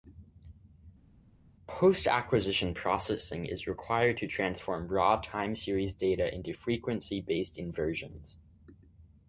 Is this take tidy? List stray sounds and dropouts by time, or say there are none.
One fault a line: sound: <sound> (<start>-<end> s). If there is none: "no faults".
no faults